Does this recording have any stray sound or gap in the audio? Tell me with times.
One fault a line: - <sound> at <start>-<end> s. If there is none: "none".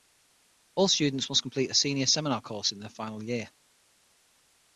none